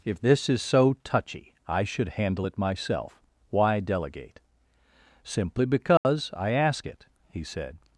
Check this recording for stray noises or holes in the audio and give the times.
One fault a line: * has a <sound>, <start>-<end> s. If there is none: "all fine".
* has a dropout, 6.0-6.0 s